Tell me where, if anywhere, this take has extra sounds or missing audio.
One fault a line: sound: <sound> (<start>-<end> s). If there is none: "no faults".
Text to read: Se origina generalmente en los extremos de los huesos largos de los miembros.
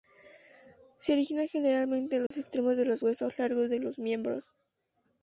sound: dropout (2.3-2.3 s)